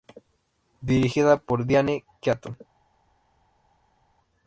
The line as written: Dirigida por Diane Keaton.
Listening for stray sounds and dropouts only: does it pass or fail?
pass